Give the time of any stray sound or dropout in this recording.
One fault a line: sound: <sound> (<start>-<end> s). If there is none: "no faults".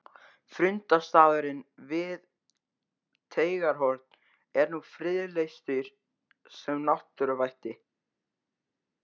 no faults